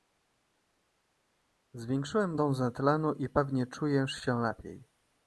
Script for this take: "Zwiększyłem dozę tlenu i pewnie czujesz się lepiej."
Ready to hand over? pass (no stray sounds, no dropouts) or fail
pass